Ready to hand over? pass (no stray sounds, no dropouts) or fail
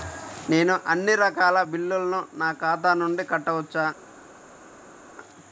pass